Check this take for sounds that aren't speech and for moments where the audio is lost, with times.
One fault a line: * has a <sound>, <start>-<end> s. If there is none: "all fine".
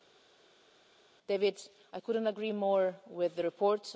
all fine